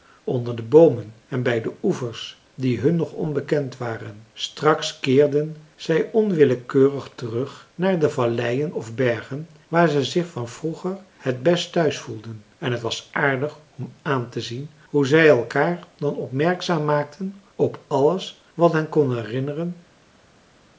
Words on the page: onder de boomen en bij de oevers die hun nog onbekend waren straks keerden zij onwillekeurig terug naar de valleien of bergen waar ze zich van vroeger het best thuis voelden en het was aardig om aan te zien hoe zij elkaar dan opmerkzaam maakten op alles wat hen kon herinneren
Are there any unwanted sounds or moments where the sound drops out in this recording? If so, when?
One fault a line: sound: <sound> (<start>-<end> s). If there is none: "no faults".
no faults